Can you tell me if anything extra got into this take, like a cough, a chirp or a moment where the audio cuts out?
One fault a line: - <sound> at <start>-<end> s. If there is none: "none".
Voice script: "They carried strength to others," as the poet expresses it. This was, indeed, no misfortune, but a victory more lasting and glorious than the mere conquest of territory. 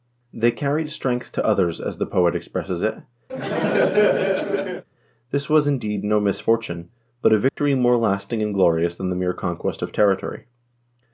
- laugh at 3.3-4.8 s
- dropout at 7.5-7.6 s